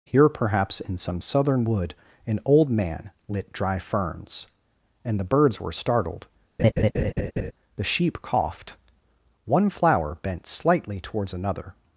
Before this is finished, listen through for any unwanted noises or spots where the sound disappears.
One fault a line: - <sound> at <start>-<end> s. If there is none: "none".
- laugh at 6.6-7.5 s